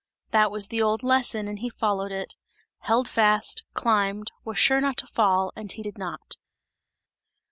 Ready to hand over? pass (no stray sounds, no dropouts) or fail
pass